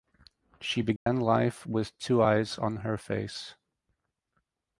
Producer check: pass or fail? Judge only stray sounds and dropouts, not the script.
fail